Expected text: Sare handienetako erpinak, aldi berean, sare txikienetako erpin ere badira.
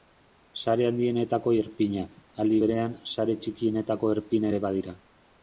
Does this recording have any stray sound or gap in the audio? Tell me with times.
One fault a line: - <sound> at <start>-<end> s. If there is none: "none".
none